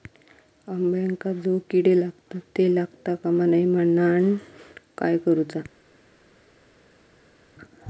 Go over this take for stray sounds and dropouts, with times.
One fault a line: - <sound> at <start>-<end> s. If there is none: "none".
none